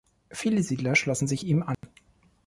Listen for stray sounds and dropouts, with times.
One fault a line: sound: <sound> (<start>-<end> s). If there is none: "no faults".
sound: dropout (1.7-1.8 s)